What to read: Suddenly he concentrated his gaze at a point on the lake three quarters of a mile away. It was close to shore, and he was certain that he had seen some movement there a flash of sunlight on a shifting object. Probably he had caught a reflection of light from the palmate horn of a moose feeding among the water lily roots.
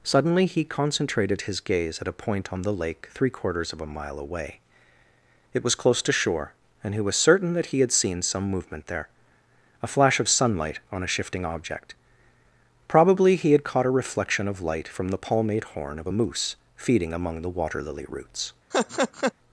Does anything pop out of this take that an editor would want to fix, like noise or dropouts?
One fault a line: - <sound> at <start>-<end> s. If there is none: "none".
- laugh at 18.7-19.3 s